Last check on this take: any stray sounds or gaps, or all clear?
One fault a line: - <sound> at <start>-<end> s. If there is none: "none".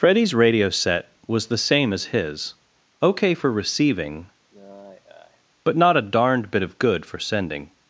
- sigh at 4.5-5.4 s